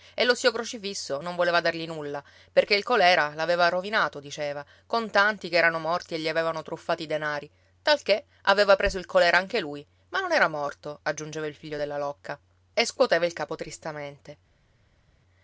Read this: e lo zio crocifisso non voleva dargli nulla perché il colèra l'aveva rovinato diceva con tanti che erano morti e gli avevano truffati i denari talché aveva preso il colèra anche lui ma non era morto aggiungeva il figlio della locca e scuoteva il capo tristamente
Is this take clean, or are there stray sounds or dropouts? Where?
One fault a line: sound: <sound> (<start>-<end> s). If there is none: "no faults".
no faults